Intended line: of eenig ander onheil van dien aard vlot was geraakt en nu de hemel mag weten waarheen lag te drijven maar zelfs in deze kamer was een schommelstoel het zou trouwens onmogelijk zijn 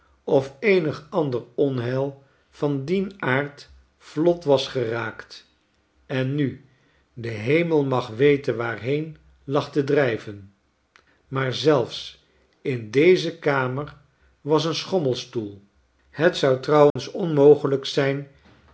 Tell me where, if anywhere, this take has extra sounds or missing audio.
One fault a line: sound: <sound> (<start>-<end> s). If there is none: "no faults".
sound: dropout (16.9-17.0 s)